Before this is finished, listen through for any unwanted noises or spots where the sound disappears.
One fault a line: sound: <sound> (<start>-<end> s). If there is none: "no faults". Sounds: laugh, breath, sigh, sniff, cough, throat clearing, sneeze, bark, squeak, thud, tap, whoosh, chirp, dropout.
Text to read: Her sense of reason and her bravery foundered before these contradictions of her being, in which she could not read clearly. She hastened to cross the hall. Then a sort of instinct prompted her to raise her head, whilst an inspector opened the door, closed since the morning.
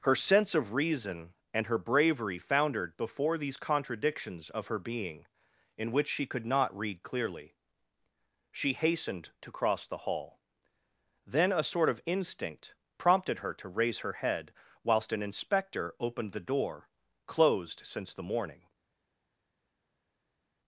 no faults